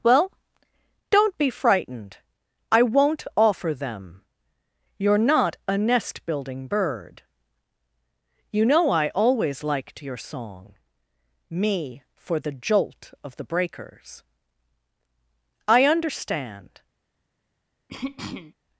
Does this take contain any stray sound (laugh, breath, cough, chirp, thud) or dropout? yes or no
yes